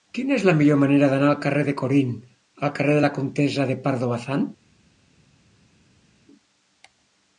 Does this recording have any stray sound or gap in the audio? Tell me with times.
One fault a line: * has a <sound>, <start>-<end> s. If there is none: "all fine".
all fine